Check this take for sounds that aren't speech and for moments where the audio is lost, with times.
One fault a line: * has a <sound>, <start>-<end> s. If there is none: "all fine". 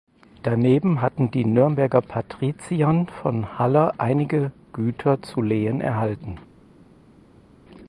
all fine